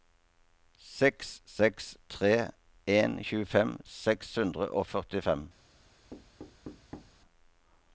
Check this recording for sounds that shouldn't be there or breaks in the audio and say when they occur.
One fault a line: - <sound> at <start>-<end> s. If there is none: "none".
- thud at 6.1-7.2 s